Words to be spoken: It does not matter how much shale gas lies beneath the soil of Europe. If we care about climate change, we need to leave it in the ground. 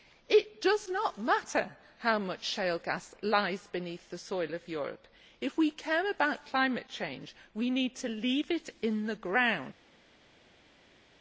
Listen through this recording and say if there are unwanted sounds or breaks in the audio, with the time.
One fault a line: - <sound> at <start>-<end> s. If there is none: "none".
none